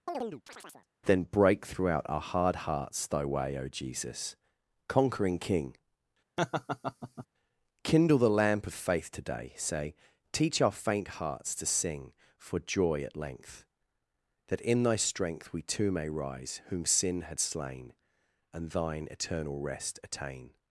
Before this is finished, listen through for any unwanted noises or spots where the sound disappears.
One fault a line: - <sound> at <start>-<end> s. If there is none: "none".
- chirp at 0.1-0.9 s
- laugh at 6.4-7.3 s